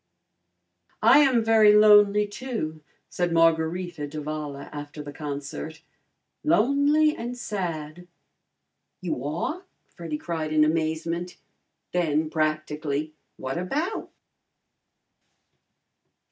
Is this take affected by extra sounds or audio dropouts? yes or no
no